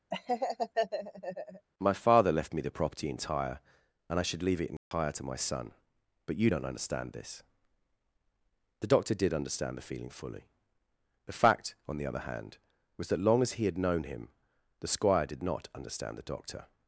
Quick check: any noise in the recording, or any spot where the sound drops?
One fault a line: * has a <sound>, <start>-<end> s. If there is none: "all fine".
* has a laugh, 0.1-1.7 s
* has a dropout, 4.8-4.9 s